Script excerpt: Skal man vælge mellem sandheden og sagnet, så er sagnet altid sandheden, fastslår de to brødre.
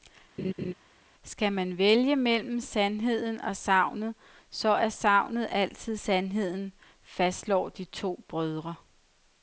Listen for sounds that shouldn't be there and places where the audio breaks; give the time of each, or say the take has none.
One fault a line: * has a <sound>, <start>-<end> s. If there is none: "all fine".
* has a laugh, 0.4-0.7 s